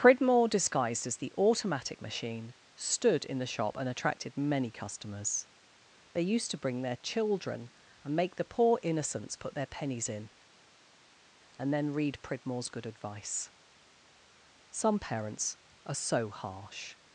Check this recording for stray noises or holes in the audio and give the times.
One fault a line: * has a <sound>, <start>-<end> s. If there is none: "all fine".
all fine